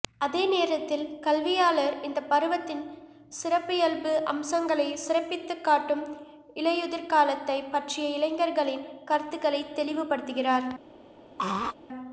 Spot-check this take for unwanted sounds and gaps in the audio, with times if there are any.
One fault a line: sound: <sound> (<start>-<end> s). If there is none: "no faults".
sound: throat clearing (11.4-11.7 s)